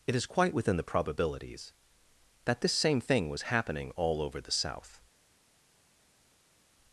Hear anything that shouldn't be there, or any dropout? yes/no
no